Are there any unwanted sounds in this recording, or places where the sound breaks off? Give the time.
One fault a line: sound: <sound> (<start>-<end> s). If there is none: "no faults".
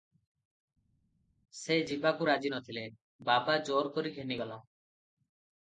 no faults